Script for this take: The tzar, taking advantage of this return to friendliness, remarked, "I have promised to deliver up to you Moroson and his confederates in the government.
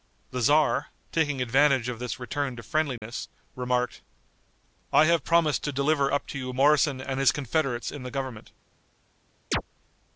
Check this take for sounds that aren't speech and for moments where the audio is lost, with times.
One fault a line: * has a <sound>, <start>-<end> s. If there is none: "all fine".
* has a dropout, 3.0-3.0 s
* has a chirp, 9.5-9.6 s